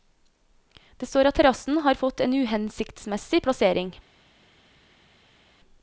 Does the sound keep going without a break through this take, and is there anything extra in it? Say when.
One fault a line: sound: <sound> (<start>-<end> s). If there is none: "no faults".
no faults